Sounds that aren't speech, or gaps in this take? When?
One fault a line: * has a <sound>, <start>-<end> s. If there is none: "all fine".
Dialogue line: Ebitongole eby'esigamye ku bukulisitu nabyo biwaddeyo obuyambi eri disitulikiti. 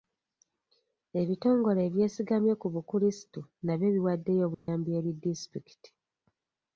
* has a dropout, 4.5-4.7 s